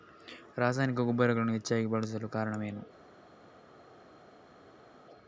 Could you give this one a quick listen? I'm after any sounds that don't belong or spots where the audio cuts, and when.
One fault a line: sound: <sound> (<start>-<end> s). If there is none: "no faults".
no faults